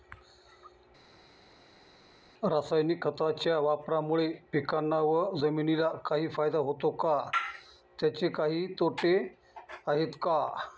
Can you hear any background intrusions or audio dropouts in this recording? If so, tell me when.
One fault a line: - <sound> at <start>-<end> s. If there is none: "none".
none